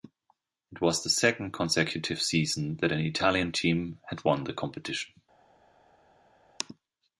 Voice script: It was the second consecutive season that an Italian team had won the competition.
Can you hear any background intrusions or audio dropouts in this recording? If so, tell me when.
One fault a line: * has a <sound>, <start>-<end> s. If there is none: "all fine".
all fine